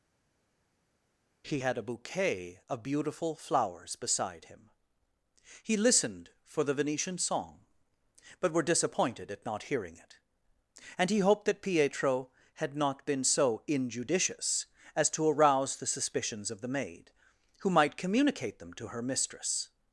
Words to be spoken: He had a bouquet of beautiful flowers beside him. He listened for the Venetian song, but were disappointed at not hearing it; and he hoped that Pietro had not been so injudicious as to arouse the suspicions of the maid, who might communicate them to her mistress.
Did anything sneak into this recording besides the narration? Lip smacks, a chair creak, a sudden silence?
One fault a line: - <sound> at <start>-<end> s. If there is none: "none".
none